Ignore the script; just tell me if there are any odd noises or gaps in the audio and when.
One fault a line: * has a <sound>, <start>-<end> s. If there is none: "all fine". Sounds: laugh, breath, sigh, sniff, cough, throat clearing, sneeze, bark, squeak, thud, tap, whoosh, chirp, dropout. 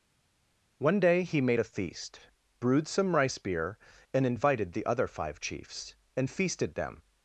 all fine